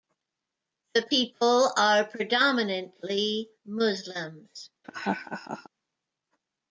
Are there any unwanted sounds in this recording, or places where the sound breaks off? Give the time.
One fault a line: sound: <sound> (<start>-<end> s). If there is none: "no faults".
sound: laugh (4.8-5.7 s)